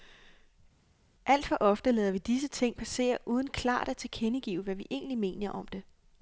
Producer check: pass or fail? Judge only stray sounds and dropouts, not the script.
pass